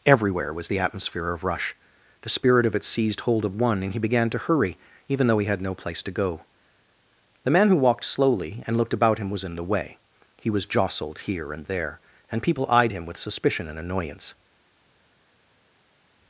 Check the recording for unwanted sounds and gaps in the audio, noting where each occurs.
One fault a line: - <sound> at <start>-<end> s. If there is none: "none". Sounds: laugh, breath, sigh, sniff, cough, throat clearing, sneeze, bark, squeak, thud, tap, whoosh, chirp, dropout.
none